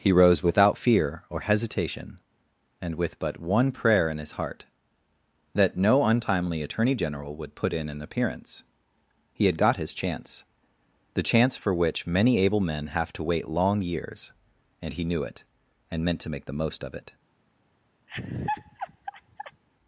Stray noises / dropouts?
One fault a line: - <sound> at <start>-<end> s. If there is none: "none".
- laugh at 18.1-19.6 s